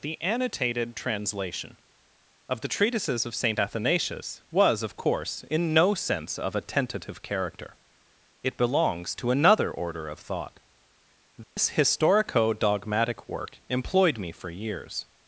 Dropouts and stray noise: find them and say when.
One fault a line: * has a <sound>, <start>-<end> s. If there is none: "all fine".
* has a dropout, 11.4-11.6 s